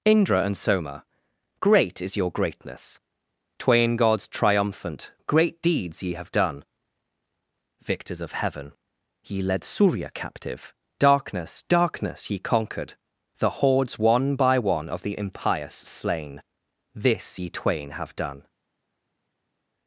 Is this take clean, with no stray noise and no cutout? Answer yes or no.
yes